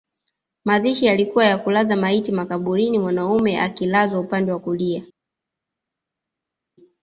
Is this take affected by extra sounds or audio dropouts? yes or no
no